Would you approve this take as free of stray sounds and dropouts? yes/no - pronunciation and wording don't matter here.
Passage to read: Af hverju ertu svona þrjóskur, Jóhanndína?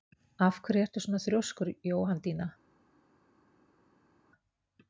yes